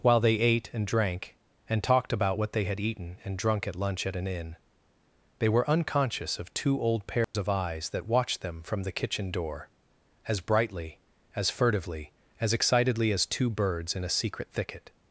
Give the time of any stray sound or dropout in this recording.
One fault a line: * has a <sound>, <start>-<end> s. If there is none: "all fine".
* has a dropout, 7.2-7.3 s